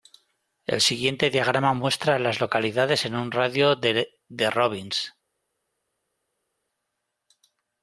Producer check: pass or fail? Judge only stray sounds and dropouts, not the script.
pass